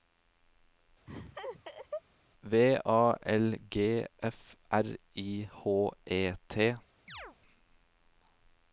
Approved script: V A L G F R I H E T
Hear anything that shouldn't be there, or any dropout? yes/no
yes